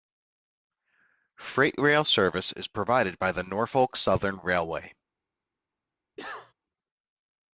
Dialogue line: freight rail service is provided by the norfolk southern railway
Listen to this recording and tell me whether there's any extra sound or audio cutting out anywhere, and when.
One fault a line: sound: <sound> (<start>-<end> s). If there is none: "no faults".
sound: cough (6.2-6.5 s)